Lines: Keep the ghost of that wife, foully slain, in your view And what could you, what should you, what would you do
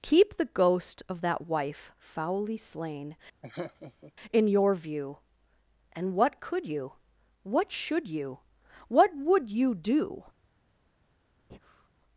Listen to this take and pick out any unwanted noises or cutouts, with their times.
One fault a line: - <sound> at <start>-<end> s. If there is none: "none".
- laugh at 3.4-4.1 s
- breath at 11.5-11.9 s